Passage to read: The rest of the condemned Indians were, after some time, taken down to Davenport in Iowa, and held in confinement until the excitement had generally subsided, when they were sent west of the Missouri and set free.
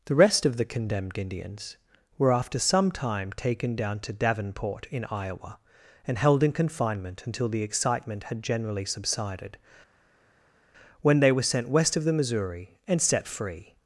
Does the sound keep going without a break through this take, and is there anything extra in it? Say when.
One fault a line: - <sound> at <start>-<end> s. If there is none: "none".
none